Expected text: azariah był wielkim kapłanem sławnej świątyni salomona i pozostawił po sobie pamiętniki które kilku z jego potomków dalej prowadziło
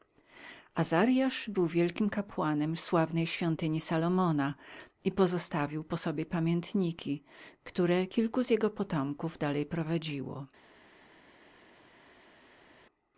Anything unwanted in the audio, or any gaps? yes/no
no